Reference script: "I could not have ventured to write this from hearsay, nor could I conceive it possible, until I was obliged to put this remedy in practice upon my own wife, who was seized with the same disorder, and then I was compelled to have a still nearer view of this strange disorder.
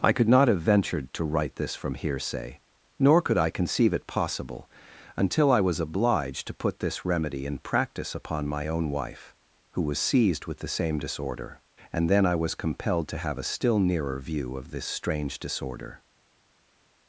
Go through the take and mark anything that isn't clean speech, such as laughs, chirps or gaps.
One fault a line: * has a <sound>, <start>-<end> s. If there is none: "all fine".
all fine